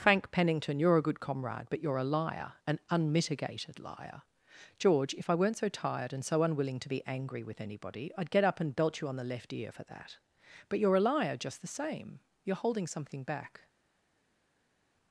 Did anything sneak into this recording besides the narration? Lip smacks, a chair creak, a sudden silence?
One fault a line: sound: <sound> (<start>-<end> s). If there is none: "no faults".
no faults